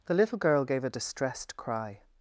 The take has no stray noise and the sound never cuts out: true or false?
true